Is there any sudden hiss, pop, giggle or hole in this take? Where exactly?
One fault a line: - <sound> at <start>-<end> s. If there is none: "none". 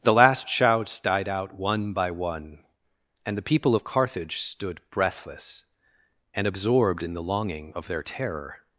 none